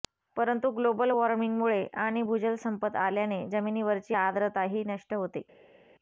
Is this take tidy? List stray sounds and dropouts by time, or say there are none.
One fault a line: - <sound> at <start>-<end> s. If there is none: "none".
none